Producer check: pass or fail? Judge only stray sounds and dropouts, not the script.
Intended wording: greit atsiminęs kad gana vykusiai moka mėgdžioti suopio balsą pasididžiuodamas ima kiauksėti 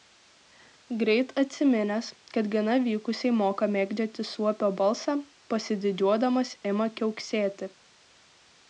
pass